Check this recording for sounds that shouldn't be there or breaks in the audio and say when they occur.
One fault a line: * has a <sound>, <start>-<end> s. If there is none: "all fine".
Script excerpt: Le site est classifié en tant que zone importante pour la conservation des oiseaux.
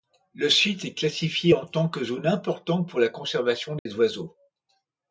* has a dropout, 3.8-3.9 s